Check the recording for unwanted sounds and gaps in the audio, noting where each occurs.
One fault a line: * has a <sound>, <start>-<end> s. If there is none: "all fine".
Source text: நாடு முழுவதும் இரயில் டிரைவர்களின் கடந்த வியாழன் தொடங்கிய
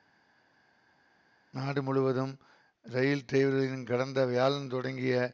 all fine